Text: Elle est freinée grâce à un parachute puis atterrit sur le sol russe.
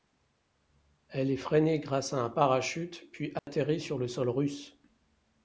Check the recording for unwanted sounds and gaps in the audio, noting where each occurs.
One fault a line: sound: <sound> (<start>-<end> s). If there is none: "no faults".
sound: dropout (3.4-3.5 s)